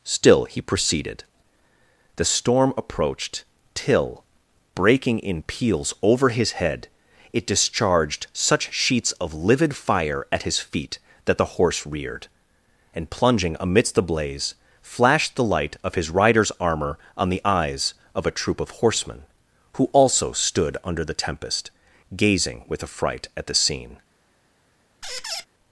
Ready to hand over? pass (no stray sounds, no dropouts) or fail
fail